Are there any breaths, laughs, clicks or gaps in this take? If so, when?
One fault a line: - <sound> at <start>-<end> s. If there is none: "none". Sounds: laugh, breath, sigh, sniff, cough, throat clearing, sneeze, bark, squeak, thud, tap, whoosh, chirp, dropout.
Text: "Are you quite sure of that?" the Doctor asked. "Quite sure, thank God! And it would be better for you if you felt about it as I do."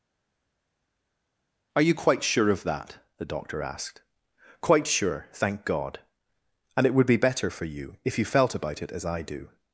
none